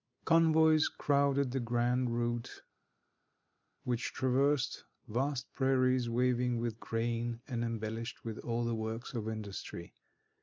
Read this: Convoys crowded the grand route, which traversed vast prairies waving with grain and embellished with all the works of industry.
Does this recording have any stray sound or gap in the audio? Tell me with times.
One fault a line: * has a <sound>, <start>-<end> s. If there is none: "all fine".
all fine